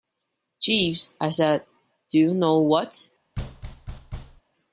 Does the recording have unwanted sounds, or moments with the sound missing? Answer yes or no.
yes